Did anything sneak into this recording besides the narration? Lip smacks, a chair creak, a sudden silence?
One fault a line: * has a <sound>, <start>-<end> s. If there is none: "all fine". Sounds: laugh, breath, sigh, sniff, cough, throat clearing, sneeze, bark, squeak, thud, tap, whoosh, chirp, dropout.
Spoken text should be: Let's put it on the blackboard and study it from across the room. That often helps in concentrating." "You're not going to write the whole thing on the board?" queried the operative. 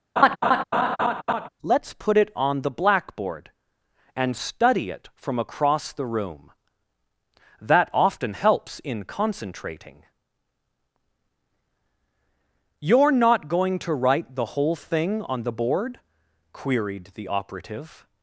* has a laugh, 0.2-1.5 s